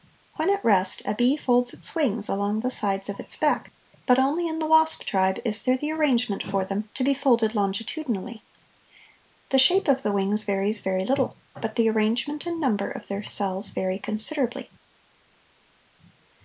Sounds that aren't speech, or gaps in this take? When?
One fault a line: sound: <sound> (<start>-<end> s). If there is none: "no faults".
no faults